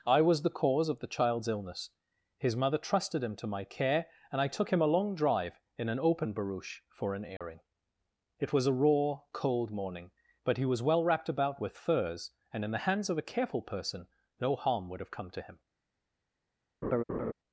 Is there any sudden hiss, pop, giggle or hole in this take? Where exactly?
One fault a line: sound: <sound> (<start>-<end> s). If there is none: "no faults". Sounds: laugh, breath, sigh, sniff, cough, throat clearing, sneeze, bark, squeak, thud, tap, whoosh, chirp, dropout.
sound: dropout (7.4-7.4 s)
sound: laugh (16.8-17.3 s)